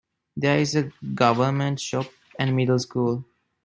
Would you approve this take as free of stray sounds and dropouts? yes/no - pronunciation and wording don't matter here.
yes